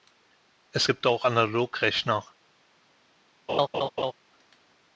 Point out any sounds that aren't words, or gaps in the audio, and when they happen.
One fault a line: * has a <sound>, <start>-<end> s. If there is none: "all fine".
* has a laugh, 3.5-4.1 s